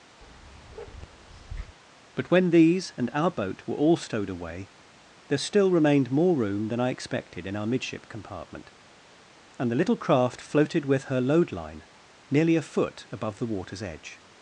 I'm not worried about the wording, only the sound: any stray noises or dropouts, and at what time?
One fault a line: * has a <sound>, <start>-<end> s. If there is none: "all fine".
* has a bark, 0.2-1.8 s